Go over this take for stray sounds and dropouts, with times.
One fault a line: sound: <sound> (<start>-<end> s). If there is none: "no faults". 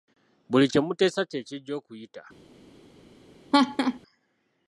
sound: laugh (3.5-4.0 s)